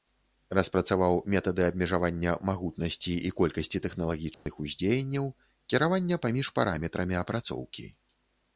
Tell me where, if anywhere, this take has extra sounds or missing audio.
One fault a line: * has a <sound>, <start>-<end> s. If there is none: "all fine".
* has a dropout, 4.3-4.5 s